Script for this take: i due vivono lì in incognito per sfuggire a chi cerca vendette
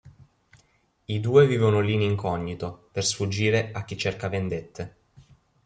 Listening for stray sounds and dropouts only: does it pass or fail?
pass